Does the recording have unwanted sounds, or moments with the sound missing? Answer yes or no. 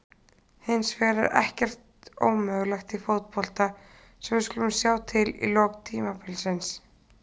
no